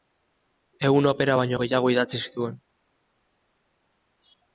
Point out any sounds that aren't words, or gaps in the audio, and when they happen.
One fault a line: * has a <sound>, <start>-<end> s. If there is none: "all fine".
all fine